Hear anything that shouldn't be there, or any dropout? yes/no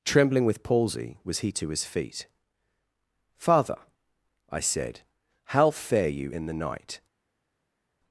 no